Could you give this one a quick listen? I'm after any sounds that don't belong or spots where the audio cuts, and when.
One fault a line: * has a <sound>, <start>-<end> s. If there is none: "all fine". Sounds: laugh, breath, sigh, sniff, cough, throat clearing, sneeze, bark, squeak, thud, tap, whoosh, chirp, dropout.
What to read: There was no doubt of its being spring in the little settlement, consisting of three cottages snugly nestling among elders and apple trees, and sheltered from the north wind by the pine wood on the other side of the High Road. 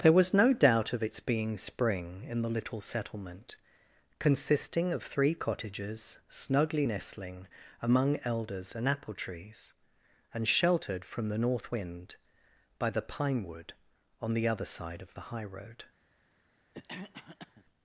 * has a cough, 16.7-17.6 s